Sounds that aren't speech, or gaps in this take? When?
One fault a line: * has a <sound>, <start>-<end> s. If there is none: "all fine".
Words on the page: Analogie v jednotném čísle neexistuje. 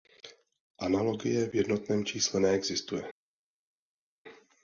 all fine